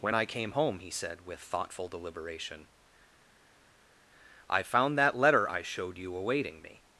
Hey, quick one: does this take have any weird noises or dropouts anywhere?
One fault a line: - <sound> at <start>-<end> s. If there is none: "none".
none